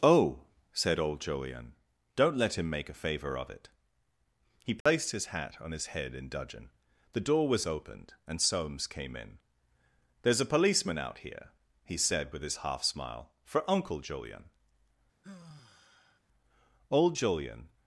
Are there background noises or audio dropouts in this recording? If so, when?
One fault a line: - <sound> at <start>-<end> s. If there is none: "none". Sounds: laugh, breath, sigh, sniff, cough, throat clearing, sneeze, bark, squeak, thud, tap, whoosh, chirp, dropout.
- dropout at 4.8-4.9 s
- sigh at 15.2-16.2 s